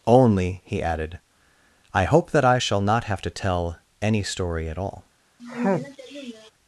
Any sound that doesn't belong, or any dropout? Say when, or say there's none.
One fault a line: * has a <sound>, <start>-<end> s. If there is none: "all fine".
* has a sneeze, 5.4-6.5 s